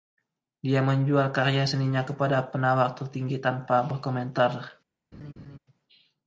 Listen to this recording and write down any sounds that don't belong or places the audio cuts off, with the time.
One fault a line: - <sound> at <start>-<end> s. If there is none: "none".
- laugh at 5.1-5.6 s